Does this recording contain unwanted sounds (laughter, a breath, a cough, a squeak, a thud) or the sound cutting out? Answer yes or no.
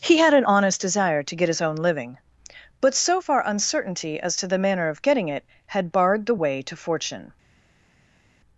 no